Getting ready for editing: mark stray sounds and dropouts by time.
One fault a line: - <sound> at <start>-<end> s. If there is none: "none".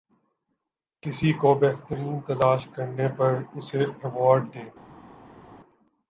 none